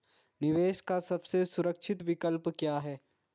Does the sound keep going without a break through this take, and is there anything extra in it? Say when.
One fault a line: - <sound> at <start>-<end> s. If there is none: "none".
none